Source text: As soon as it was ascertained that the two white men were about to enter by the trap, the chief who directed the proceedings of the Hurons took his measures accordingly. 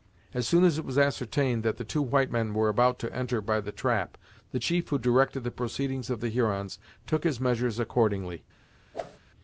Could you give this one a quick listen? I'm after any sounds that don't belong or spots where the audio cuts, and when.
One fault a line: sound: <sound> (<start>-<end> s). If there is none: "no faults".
sound: whoosh (8.9-9.2 s)